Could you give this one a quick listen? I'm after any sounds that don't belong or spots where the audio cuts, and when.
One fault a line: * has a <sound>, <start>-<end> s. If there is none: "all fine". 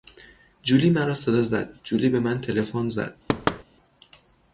* has a thud, 3.3-3.6 s